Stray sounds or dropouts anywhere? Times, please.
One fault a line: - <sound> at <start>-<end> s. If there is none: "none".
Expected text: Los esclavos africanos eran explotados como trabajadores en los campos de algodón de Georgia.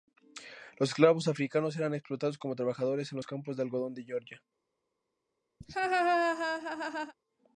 - laugh at 5.6-7.1 s